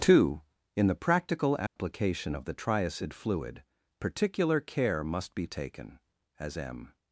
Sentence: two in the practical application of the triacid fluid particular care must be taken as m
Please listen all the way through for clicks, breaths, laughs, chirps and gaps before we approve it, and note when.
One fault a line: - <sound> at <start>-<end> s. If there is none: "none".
- dropout at 1.7-1.8 s